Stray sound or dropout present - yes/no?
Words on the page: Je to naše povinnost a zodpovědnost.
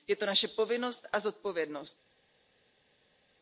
no